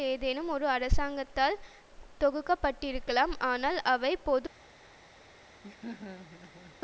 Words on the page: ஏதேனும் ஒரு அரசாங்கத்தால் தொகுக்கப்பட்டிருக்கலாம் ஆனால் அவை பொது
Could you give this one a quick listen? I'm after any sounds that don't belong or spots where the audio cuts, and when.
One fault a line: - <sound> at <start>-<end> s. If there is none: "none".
- laugh at 5.6-6.8 s